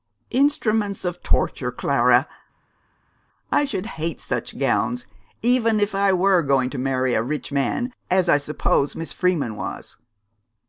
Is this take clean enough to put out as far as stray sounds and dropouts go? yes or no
yes